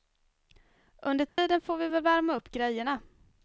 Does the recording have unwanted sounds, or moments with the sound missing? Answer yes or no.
yes